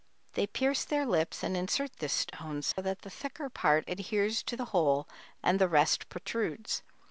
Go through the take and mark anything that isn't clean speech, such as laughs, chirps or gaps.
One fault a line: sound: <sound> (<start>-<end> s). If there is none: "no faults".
sound: dropout (2.7-2.8 s)